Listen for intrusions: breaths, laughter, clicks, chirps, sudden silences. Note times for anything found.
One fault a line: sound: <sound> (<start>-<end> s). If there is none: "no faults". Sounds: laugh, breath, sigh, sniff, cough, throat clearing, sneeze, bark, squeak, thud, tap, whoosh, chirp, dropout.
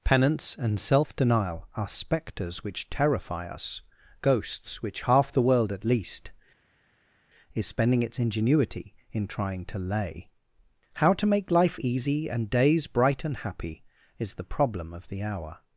no faults